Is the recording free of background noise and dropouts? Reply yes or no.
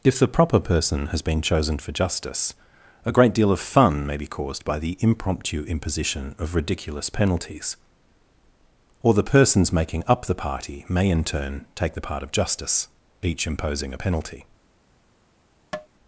no